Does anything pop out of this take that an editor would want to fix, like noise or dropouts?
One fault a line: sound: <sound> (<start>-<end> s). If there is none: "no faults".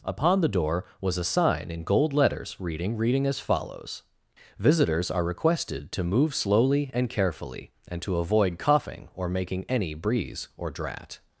no faults